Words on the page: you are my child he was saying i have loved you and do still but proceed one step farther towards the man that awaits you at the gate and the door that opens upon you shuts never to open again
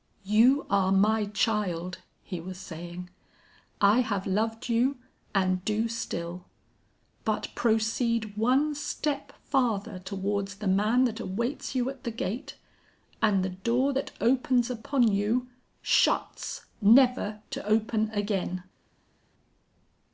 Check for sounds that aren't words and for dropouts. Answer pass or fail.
pass